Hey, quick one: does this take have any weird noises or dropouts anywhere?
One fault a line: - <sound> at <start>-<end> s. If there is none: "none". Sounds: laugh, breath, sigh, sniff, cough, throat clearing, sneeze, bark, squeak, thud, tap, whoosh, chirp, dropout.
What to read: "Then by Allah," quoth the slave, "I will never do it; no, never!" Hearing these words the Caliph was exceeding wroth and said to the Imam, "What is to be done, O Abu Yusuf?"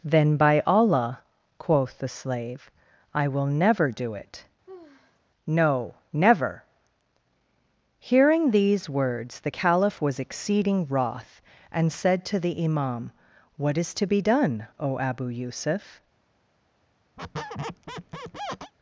- sigh at 4.7-5.2 s
- squeak at 17.2-18.7 s